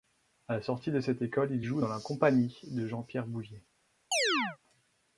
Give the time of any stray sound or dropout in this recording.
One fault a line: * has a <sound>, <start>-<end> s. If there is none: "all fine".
* has a chirp, 4.1-4.6 s